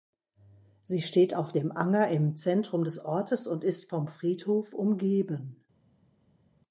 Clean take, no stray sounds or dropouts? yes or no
yes